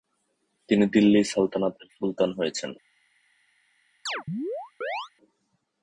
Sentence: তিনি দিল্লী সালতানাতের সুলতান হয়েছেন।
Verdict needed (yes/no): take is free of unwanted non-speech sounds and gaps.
no